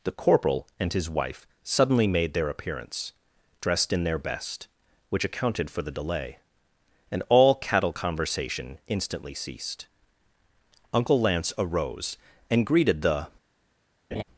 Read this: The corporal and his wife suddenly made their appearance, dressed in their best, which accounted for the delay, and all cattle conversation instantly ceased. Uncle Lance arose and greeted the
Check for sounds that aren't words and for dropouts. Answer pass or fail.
fail